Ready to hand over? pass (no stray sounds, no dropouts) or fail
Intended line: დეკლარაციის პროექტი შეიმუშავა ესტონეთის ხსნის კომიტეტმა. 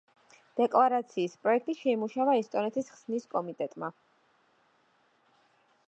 pass